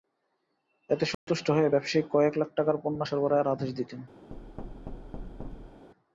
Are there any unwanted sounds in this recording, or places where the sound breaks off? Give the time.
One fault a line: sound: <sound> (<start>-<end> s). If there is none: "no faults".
sound: dropout (1.1-1.3 s)
sound: thud (4.3-5.9 s)